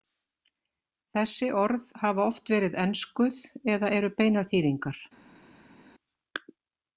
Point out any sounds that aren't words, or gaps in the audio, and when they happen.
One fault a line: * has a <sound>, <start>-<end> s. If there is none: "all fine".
all fine